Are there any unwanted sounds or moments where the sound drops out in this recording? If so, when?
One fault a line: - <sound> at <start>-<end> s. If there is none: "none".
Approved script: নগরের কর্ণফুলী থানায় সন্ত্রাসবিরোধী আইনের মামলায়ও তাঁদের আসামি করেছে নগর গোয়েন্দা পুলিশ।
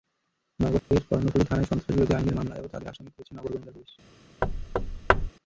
- dropout at 0.8-0.9 s
- thud at 4.4-5.3 s